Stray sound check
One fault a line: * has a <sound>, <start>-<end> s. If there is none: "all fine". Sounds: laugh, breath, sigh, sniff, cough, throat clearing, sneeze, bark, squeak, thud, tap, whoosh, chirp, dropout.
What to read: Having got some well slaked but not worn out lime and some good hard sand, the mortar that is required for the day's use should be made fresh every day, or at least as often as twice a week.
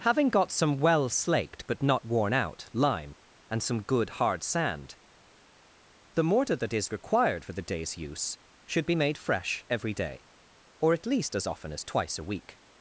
all fine